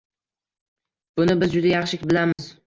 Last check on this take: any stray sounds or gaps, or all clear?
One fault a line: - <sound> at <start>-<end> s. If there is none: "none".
- dropout at 2.3-2.4 s